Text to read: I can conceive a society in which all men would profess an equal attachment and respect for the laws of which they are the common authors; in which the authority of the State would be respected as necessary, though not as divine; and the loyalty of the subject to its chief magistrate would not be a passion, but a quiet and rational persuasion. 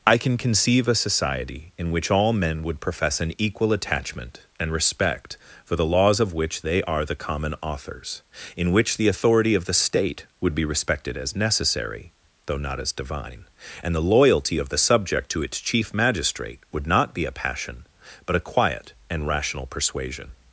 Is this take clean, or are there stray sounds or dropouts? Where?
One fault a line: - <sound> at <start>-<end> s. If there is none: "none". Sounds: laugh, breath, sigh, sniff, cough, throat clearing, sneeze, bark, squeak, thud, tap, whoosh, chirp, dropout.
none